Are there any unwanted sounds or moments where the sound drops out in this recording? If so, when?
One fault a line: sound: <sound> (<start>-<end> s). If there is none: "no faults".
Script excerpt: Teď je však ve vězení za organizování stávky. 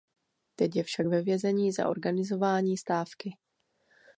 no faults